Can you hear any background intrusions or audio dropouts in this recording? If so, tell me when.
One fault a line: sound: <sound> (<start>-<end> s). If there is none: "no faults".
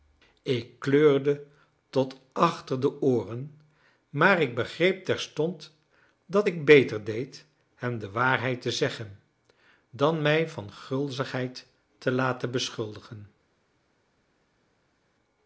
no faults